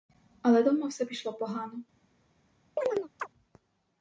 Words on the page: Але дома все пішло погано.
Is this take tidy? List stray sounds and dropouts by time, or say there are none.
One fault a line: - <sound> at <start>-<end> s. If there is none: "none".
- chirp at 2.8-3.3 s